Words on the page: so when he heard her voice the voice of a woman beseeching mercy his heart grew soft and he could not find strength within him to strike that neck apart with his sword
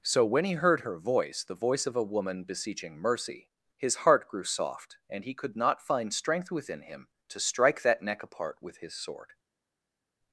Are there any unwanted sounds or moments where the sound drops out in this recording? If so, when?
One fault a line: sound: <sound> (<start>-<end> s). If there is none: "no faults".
no faults